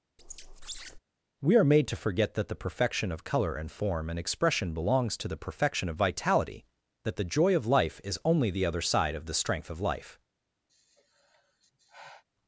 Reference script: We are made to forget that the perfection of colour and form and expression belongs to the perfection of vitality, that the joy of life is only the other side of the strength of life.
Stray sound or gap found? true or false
true